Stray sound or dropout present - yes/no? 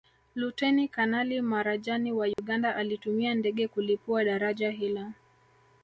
yes